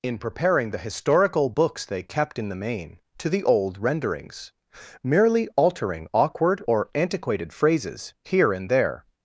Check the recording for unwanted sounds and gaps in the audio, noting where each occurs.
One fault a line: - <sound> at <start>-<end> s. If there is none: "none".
none